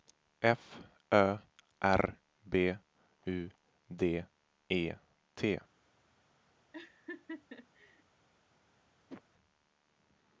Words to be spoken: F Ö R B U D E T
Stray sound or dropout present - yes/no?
yes